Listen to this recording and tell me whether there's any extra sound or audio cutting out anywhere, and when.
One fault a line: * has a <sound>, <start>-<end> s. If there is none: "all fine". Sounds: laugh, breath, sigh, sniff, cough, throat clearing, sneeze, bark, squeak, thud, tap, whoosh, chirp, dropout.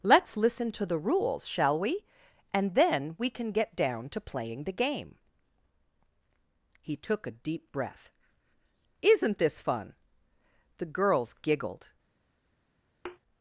* has a thud, 13.0-13.2 s